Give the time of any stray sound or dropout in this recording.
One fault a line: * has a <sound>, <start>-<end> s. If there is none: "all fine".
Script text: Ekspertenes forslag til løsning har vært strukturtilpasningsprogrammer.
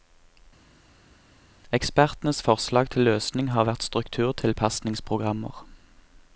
all fine